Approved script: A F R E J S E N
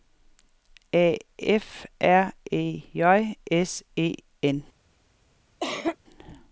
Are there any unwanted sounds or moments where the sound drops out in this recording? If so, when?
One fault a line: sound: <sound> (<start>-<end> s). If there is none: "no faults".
sound: cough (5.6-6.0 s)